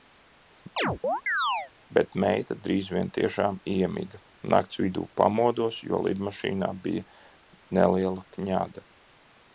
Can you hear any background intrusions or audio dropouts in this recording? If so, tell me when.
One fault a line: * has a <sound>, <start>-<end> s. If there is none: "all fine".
* has a chirp, 0.8-1.7 s